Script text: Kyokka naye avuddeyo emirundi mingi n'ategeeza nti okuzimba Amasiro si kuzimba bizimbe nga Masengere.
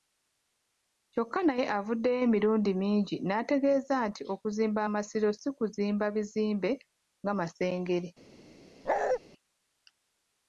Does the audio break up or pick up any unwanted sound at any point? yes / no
yes